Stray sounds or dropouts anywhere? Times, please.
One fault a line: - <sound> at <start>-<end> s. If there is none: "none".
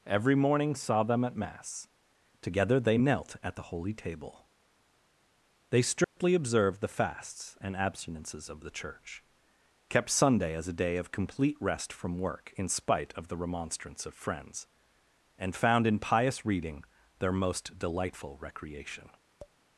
- dropout at 6.0-6.2 s
- tap at 19.4-19.6 s